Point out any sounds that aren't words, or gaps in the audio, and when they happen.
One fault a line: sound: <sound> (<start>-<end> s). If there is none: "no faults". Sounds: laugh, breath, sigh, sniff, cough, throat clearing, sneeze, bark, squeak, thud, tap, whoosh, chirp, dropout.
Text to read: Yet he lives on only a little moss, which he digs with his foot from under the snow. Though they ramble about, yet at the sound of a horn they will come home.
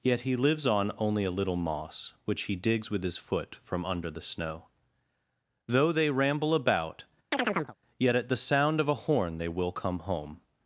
sound: chirp (7.3-7.8 s)